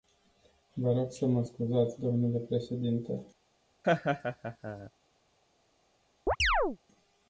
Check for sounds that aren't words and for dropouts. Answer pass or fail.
fail